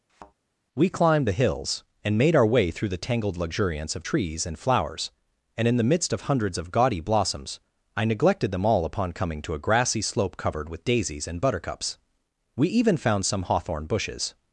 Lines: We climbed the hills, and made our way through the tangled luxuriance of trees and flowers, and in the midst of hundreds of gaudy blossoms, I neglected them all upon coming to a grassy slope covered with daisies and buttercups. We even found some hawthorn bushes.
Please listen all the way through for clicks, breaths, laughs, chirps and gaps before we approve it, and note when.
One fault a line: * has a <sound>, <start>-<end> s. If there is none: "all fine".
* has a thud, 0.1-0.3 s